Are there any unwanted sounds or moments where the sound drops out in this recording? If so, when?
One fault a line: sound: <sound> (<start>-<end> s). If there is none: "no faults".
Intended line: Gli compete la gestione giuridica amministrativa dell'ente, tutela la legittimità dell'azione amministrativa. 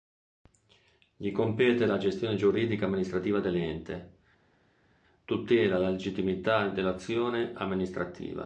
no faults